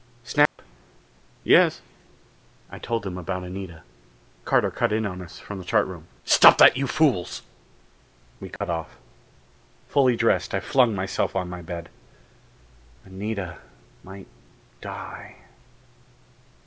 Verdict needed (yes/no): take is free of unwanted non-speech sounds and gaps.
no